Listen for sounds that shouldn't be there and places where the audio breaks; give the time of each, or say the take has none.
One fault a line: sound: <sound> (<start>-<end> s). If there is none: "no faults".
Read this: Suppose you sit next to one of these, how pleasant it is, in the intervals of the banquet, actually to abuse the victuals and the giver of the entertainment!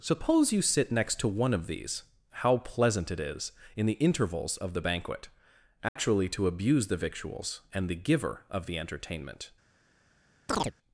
sound: dropout (5.9-6.0 s)
sound: chirp (10.5-10.7 s)